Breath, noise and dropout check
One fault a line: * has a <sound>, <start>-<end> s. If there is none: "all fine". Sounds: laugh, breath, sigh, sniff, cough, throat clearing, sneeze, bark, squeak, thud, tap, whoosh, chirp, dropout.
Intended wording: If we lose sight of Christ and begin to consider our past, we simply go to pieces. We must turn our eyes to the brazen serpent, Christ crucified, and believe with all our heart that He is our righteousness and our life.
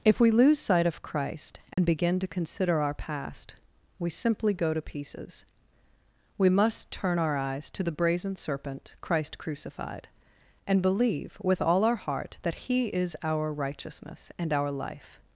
* has a dropout, 1.7-1.8 s